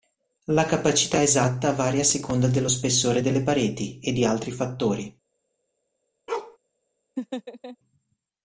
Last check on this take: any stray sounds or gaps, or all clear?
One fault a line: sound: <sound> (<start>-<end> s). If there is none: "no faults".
sound: bark (6.3-6.6 s)
sound: laugh (7.2-7.8 s)